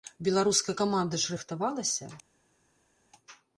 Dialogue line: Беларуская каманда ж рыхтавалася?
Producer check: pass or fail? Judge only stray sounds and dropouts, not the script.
pass